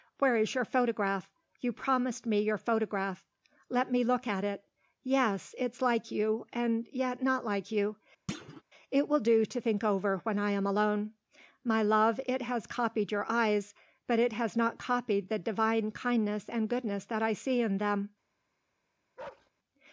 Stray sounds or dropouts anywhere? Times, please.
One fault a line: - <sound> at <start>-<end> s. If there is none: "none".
- thud at 8.3-8.6 s
- bark at 19.2-19.5 s